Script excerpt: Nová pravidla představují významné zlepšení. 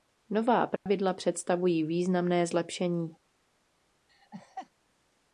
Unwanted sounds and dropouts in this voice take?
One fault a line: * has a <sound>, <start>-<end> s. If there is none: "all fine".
* has a dropout, 0.8-0.9 s
* has a laugh, 4.1-4.7 s